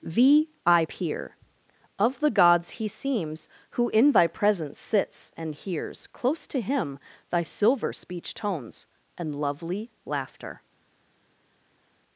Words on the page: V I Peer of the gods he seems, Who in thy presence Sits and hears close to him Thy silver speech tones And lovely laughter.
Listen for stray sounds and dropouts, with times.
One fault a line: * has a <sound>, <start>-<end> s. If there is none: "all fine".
all fine